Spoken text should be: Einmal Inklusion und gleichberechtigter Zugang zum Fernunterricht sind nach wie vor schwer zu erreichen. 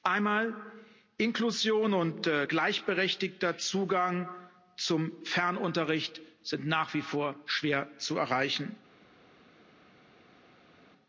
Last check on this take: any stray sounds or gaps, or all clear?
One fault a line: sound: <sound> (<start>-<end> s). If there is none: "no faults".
no faults